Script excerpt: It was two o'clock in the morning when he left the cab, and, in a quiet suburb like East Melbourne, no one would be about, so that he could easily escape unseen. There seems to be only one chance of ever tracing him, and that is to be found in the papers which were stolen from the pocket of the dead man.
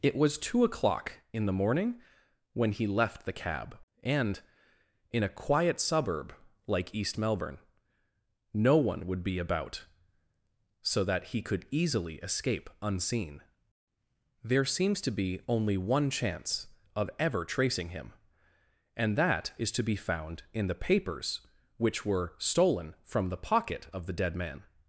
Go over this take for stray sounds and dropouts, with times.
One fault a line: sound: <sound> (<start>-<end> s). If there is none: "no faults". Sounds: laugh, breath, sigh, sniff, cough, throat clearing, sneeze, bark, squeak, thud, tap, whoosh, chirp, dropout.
no faults